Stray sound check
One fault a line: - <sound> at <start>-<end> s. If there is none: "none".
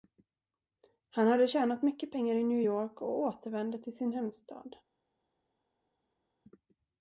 none